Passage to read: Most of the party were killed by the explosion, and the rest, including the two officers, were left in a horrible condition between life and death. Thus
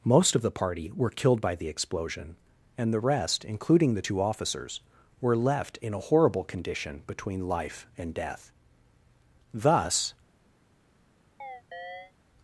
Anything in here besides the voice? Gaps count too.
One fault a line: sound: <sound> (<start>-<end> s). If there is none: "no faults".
sound: chirp (11.4-12.1 s)